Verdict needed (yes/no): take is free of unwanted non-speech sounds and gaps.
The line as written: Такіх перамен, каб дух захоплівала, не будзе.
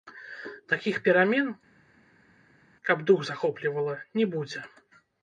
yes